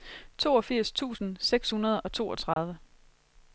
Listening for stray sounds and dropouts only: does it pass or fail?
fail